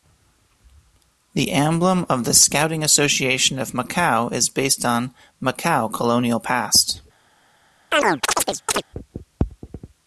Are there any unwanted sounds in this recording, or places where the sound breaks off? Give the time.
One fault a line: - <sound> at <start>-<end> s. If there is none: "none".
- chirp at 7.9-8.8 s